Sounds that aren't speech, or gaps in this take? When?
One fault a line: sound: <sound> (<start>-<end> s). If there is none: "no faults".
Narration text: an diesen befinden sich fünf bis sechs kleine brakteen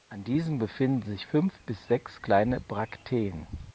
no faults